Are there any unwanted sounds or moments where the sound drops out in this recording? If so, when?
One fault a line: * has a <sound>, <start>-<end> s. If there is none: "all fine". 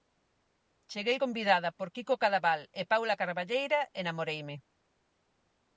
all fine